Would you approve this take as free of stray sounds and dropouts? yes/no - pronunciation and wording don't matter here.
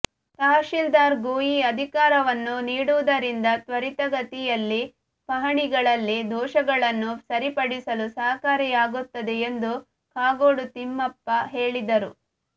yes